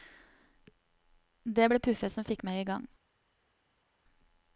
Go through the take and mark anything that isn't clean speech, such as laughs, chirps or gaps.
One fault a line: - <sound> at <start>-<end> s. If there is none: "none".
none